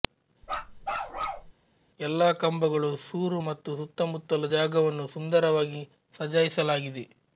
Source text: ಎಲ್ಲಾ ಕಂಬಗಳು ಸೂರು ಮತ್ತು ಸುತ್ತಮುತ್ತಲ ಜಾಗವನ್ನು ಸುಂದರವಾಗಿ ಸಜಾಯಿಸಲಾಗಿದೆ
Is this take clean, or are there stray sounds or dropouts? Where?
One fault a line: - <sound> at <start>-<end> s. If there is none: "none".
- bark at 0.4-1.5 s